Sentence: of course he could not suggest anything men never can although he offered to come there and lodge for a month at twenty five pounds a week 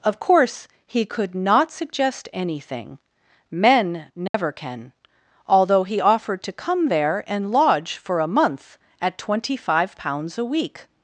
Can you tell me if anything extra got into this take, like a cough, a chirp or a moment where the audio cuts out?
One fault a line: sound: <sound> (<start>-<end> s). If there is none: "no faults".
sound: dropout (4.3-4.3 s)